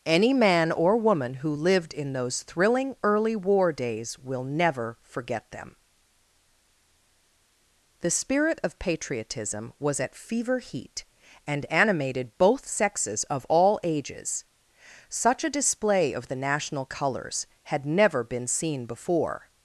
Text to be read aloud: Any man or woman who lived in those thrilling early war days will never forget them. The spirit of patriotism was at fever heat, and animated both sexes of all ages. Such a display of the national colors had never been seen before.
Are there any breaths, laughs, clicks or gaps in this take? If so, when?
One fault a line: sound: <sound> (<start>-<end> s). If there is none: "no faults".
no faults